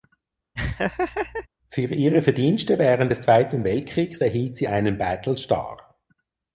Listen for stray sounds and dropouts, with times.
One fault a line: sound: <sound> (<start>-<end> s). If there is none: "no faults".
sound: laugh (0.6-1.5 s)